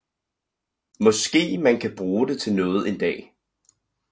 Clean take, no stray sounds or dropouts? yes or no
yes